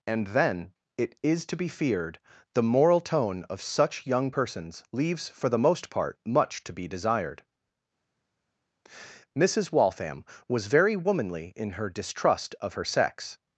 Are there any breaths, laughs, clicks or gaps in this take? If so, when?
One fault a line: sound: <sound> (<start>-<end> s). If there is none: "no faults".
no faults